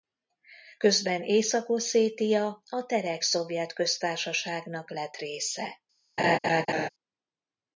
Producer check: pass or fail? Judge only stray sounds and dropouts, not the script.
fail